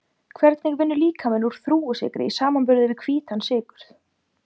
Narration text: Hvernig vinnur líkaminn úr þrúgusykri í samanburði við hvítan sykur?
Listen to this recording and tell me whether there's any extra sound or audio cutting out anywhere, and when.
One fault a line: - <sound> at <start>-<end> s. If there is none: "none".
none